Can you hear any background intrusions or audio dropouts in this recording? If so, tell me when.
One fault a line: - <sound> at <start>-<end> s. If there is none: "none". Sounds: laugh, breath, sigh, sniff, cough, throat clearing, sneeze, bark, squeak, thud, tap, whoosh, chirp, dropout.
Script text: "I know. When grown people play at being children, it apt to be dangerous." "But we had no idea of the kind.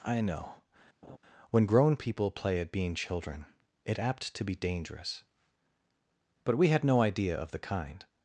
- laugh at 1.0-1.2 s